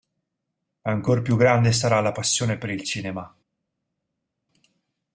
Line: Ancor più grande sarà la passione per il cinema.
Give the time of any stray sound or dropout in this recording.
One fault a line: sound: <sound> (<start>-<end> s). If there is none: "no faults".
no faults